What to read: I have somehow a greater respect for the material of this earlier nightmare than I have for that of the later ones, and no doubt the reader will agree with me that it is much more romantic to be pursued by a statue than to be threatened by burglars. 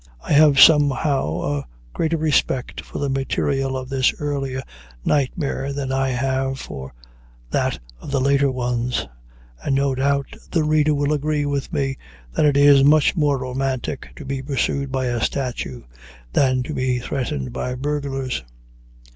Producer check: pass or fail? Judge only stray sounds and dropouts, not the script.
pass